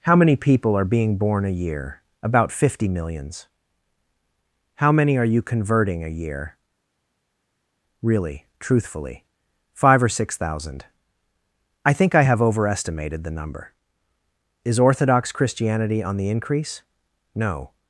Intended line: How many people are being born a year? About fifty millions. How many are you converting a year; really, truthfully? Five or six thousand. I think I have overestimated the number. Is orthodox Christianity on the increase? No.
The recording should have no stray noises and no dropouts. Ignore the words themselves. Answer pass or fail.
pass